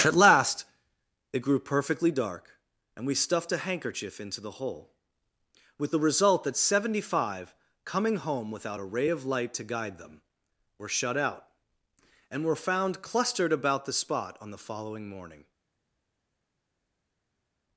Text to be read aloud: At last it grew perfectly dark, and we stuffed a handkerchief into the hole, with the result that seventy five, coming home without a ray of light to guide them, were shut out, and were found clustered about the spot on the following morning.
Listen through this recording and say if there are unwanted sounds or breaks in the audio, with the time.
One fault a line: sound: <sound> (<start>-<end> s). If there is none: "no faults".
no faults